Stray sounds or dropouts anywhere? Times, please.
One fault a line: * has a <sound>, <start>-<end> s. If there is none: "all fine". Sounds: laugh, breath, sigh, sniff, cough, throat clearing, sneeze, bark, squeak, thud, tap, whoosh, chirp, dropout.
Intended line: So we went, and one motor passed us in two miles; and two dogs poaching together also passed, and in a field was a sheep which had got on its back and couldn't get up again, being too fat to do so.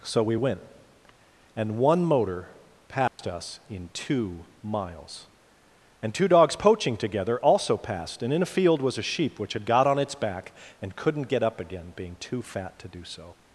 * has a dropout, 3.1-3.2 s